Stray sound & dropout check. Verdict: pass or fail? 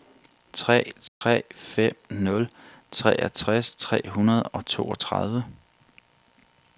fail